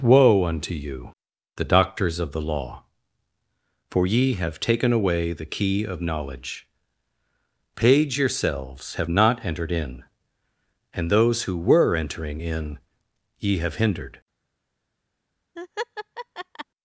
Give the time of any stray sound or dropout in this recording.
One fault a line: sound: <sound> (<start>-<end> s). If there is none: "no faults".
sound: laugh (15.6-16.7 s)